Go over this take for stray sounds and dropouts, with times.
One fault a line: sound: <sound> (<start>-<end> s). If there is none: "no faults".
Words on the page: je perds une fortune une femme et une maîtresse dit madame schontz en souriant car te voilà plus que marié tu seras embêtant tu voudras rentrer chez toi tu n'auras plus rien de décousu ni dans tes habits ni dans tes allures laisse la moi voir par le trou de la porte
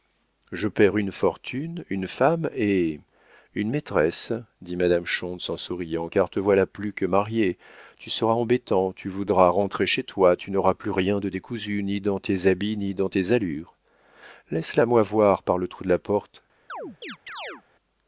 sound: chirp (16.7-17.6 s)